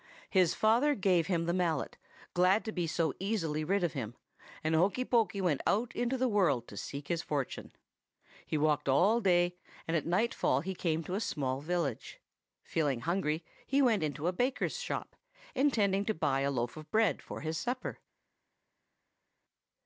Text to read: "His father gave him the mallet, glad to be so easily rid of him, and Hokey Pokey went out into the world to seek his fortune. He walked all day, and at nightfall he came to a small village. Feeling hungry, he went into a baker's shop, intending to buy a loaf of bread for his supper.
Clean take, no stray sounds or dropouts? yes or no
yes